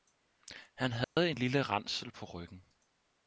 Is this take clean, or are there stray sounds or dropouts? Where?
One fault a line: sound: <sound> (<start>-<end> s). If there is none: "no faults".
sound: dropout (1.0-1.2 s)